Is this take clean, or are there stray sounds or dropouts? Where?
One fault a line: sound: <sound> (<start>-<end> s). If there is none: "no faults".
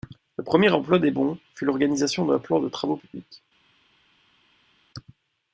no faults